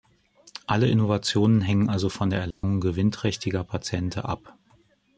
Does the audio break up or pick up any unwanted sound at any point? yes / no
yes